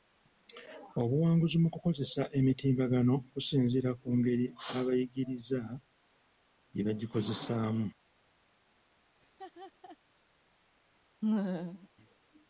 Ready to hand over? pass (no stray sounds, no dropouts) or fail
fail